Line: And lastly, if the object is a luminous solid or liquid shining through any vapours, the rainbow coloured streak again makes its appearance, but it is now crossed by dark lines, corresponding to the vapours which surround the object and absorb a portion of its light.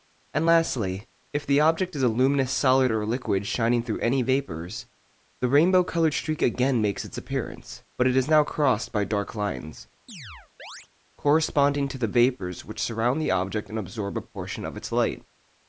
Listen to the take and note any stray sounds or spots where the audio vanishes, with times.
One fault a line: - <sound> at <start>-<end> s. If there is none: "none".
- chirp at 10.1-10.9 s